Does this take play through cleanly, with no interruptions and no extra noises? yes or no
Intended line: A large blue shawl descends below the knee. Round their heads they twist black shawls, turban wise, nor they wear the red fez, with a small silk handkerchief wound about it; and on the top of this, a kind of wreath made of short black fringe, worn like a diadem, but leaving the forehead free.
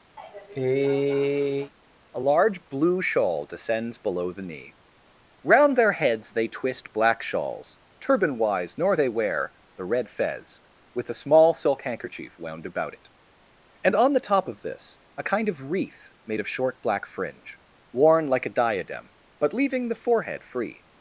no